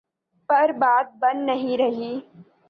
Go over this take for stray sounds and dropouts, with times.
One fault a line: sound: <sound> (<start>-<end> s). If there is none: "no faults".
no faults